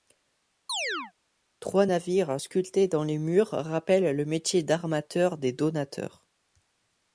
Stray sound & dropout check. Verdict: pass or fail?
fail